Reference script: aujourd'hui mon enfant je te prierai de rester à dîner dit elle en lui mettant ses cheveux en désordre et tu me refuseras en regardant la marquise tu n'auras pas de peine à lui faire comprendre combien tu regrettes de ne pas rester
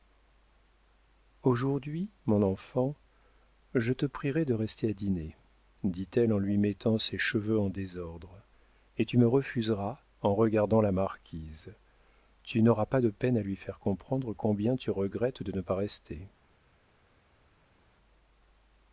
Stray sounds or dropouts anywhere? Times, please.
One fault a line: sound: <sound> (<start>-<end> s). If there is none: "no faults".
no faults